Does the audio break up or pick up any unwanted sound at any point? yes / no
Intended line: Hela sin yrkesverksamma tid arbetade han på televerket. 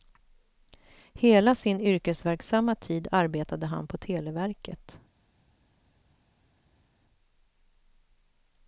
no